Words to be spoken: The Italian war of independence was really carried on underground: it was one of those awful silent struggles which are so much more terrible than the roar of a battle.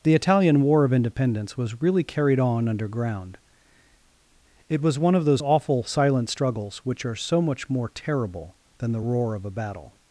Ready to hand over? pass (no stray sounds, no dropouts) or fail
pass